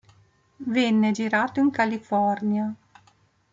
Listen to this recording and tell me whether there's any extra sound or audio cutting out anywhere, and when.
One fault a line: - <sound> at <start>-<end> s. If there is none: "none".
none